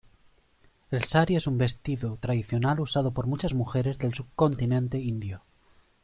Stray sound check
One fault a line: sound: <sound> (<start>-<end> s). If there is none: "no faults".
no faults